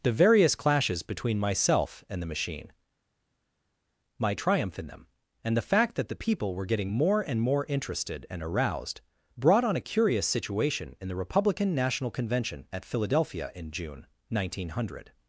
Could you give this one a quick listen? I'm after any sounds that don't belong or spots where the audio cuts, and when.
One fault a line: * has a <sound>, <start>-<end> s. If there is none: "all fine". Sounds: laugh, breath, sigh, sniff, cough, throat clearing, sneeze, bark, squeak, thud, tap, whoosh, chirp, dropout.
all fine